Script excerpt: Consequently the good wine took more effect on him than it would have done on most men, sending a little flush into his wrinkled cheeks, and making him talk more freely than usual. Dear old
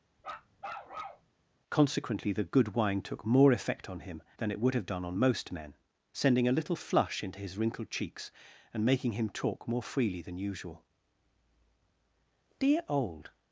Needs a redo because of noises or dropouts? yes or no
yes